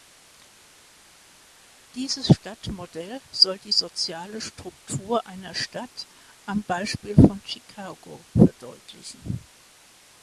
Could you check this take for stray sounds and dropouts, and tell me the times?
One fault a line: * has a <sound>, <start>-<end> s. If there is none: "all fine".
all fine